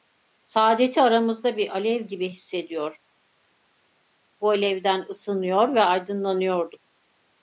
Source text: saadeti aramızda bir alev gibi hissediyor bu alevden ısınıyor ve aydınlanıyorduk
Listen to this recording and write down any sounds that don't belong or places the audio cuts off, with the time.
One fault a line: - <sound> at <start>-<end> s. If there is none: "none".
none